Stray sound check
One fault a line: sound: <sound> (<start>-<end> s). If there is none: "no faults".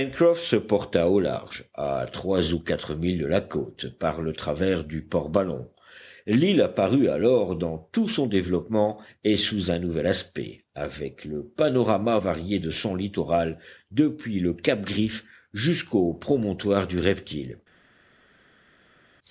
no faults